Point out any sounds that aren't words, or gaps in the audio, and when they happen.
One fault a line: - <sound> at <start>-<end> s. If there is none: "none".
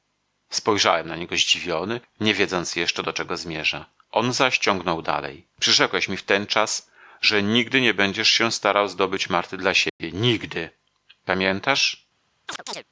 - dropout at 9.9-10.0 s
- chirp at 12.5-12.8 s